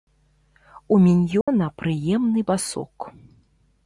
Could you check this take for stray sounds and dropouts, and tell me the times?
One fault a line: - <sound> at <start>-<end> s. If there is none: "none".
- dropout at 1.4-1.5 s